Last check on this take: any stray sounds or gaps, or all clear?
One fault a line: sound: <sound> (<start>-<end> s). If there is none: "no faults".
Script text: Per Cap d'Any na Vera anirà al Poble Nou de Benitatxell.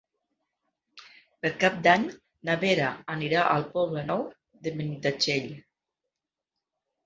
no faults